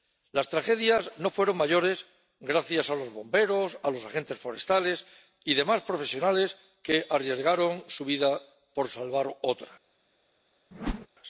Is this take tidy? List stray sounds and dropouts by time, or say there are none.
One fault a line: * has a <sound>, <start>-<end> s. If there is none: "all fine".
* has a whoosh, 10.7-11.1 s